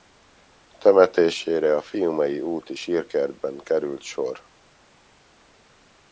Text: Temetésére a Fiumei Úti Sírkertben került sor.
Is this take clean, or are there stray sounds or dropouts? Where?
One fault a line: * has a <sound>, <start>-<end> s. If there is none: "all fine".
all fine